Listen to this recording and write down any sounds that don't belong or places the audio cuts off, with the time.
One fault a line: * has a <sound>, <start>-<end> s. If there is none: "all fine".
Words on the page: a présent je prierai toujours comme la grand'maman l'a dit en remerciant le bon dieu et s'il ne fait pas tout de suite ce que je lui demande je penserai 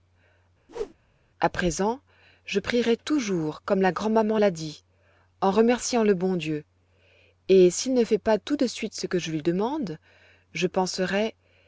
* has a whoosh, 0.7-0.9 s